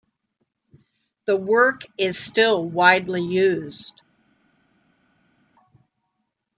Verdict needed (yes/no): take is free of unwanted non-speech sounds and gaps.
yes